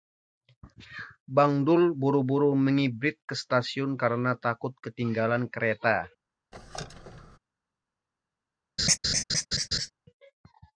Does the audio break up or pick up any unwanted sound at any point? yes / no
yes